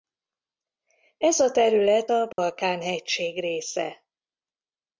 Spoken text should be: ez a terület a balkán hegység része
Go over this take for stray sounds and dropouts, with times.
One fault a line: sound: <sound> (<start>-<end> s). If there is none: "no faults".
sound: dropout (2.3-2.4 s)